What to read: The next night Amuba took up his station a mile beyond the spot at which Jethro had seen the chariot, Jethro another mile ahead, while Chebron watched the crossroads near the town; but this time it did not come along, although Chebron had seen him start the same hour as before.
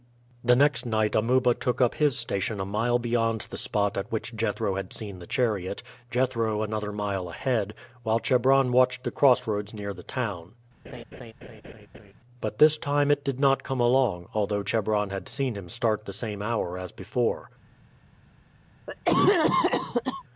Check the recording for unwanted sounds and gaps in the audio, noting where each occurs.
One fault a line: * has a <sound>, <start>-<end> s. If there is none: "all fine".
* has a laugh, 10.8-12.1 s
* has a cough, 18.9-20.2 s